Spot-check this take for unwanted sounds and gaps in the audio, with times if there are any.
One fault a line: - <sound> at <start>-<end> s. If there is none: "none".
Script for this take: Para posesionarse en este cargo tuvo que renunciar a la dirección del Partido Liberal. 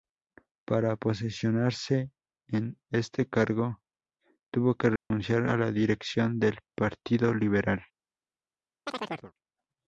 - dropout at 5.0-5.1 s
- chirp at 8.9-9.3 s